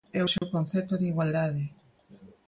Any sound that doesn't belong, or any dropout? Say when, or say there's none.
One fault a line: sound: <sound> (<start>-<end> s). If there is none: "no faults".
sound: dropout (0.4-0.4 s)